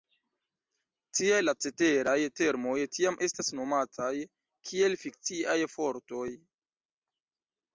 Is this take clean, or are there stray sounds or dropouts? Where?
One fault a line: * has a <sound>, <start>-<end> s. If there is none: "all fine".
all fine